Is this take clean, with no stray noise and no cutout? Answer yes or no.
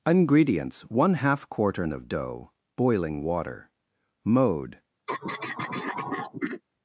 no